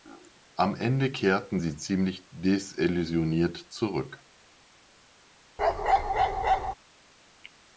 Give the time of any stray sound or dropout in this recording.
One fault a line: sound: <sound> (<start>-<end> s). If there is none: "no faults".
sound: bark (5.6-6.7 s)